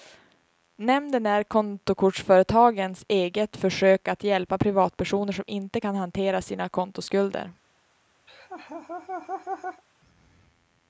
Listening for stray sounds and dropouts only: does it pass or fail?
fail